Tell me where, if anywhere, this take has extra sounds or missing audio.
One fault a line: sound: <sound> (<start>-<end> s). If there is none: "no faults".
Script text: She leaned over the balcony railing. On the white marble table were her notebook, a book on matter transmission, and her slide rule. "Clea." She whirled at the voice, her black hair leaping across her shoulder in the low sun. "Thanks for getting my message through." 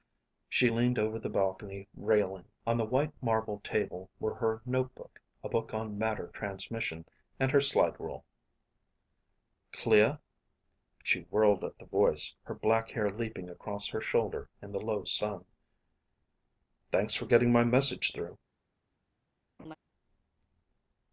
sound: laugh (19.6-19.8 s)